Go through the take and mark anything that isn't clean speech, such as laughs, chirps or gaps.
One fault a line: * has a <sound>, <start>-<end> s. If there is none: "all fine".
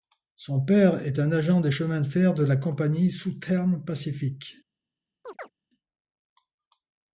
* has a chirp, 5.2-5.5 s